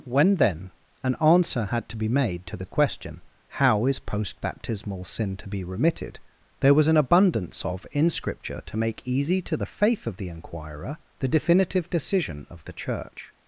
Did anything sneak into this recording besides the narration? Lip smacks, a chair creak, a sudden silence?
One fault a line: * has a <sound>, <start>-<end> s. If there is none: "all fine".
all fine